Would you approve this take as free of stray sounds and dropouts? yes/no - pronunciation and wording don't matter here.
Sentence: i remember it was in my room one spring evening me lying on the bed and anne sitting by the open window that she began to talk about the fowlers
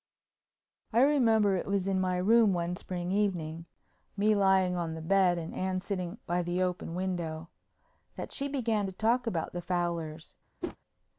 no